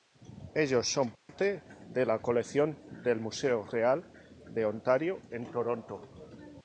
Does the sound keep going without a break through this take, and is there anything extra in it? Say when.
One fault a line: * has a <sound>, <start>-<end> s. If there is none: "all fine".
* has a dropout, 1.1-1.3 s